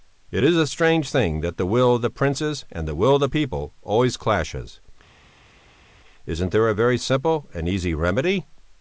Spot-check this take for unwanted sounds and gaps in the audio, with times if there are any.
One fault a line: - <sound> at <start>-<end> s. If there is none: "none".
none